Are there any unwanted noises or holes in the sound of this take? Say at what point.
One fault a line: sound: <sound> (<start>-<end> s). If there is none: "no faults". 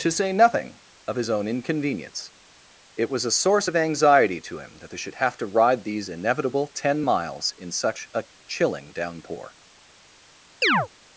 sound: chirp (10.6-10.9 s)